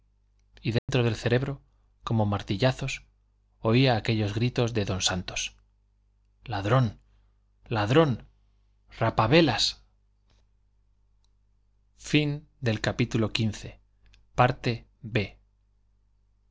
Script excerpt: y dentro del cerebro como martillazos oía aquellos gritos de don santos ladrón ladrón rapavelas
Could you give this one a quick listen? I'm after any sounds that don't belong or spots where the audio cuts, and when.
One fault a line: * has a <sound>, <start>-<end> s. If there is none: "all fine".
* has a dropout, 0.8-0.9 s